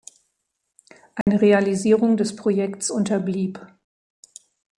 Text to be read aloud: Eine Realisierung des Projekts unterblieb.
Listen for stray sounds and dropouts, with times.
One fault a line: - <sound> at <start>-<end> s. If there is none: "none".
- dropout at 1.2-1.3 s